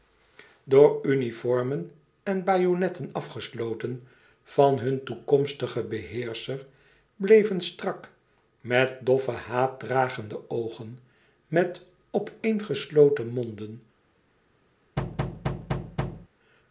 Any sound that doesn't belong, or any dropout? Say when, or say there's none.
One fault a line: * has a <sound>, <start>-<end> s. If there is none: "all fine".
* has a thud, 15.0-16.3 s